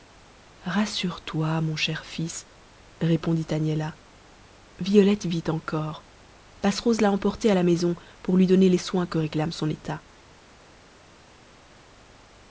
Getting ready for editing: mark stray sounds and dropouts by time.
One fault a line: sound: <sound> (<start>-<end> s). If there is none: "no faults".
no faults